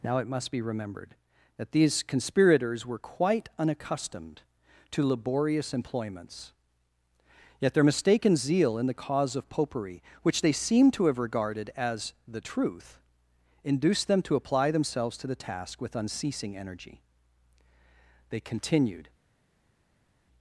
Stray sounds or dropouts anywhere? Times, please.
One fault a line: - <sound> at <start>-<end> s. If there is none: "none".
none